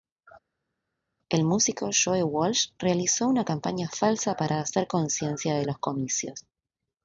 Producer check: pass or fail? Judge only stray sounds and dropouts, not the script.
pass